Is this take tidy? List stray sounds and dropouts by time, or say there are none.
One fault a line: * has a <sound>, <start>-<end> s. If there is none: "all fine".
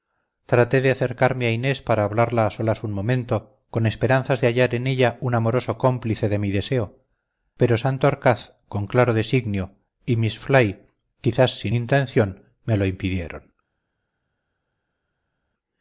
all fine